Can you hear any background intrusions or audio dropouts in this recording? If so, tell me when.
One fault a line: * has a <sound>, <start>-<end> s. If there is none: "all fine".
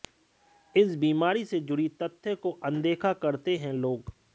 all fine